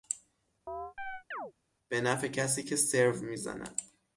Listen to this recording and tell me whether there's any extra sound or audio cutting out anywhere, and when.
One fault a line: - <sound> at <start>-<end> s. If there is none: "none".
- chirp at 0.7-1.5 s